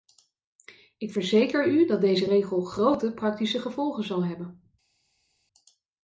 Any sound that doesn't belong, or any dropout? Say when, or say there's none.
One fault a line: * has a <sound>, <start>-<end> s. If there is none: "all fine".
all fine